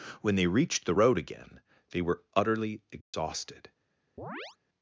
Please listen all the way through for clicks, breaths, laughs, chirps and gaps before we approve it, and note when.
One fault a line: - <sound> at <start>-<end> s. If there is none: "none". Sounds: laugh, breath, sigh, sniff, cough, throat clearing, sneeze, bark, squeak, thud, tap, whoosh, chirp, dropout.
- dropout at 3.0-3.1 s
- chirp at 4.2-4.6 s